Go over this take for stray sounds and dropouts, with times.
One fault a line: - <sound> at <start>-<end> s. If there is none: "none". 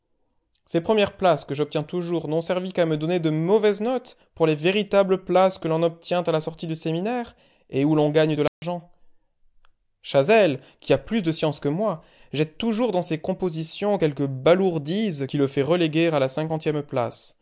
- dropout at 8.5-8.6 s